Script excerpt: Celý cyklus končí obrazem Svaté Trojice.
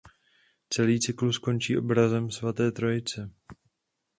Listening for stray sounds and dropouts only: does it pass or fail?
pass